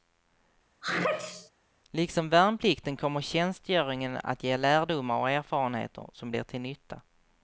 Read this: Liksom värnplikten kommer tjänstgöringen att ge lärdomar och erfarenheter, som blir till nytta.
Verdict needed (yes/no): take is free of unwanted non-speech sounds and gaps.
no